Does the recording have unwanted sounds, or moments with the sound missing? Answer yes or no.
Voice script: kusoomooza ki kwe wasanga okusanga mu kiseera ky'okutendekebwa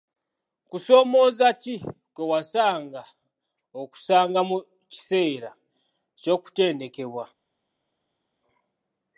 no